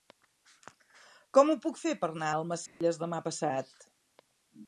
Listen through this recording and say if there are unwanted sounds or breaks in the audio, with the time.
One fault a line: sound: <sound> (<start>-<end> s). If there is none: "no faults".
sound: dropout (2.7-2.8 s)